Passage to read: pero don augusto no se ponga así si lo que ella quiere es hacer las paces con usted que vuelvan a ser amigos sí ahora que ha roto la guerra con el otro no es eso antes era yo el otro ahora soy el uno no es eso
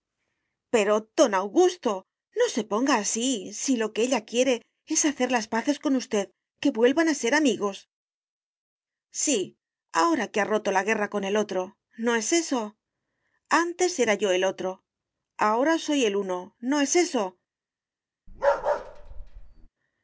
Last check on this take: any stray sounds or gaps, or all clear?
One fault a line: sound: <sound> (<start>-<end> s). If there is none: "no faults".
sound: bark (18.3-19.7 s)